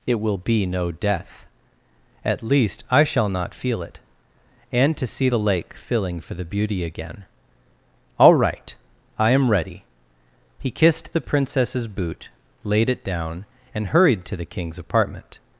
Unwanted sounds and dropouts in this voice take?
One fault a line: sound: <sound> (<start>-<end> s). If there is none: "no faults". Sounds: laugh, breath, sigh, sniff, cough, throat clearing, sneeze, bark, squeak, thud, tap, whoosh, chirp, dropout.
no faults